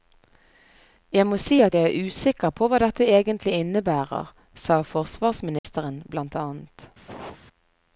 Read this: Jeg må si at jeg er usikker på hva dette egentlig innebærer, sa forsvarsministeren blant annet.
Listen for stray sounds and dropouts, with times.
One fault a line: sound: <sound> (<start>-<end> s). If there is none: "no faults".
sound: dropout (5.6-5.6 s)
sound: cough (7.1-7.4 s)